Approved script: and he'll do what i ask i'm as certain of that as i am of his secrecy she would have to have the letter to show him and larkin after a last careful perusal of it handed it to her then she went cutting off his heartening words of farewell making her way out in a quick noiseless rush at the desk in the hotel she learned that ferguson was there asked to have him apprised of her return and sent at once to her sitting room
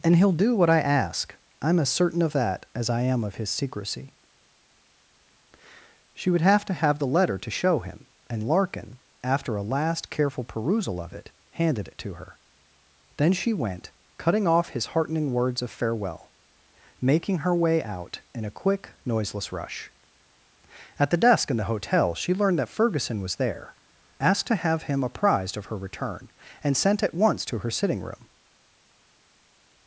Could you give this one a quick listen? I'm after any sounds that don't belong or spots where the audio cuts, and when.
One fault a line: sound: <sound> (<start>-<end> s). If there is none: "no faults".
no faults